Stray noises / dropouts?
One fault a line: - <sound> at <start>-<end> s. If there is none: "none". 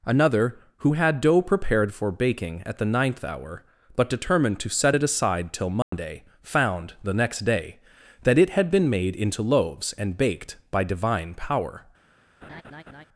- dropout at 5.8-5.9 s
- laugh at 12.4-13.1 s